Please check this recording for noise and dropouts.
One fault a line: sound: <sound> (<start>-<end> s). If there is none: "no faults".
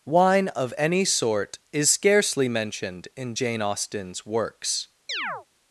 sound: chirp (5.1-5.5 s)